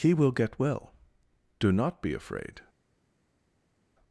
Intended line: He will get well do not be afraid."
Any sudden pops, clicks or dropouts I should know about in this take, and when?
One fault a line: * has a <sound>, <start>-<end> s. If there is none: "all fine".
all fine